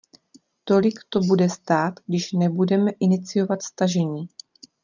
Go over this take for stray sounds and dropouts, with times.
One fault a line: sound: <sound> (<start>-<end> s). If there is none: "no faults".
no faults